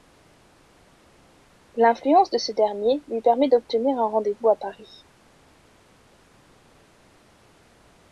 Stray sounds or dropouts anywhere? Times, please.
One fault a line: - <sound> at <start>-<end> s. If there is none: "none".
none